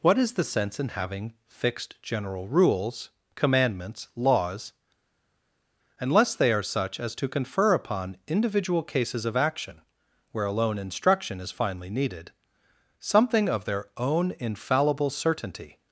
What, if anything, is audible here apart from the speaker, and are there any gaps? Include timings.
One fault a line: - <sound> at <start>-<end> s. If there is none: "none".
none